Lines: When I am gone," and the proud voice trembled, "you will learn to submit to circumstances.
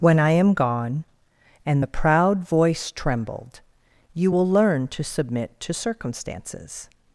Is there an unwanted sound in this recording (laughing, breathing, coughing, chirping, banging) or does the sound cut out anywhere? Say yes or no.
no